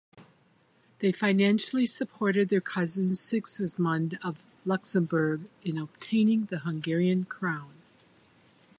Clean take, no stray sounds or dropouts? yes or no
yes